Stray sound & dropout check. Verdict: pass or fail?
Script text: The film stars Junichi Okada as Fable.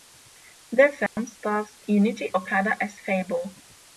fail